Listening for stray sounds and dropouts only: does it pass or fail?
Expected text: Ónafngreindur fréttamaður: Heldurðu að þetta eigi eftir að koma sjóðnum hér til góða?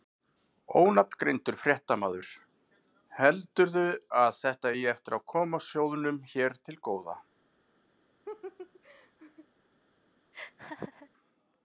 fail